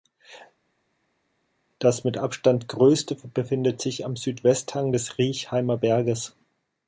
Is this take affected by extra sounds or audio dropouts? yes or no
no